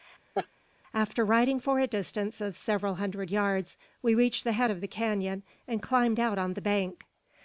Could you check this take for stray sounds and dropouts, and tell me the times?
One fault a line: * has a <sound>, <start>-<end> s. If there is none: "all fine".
* has a laugh, 0.3-0.5 s